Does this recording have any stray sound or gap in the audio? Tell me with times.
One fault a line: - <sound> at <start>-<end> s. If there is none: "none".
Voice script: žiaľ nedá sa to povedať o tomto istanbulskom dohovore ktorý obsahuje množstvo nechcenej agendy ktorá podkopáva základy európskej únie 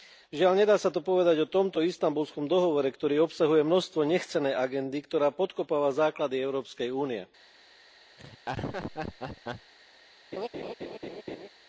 - laugh at 8.2-9.7 s
- laugh at 10.3-11.5 s